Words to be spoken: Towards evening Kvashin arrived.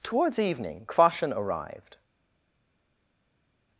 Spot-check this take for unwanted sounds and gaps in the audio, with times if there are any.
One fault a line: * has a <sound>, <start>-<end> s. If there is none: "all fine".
all fine